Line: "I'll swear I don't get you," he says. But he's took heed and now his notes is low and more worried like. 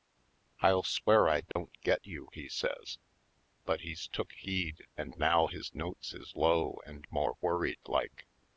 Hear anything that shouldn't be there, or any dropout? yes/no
yes